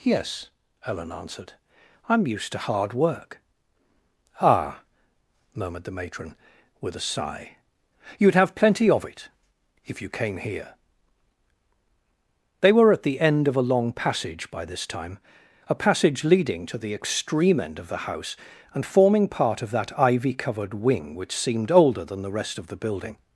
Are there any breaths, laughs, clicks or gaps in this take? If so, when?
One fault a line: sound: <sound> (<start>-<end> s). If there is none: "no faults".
no faults